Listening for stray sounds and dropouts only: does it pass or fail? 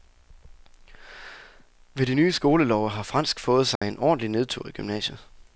fail